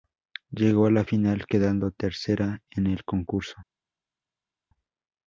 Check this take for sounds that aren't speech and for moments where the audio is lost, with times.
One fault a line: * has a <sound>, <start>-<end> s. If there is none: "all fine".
all fine